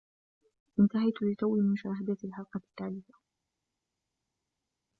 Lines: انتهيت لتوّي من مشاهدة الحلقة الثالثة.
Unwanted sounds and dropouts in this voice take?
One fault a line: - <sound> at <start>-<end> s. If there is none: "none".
none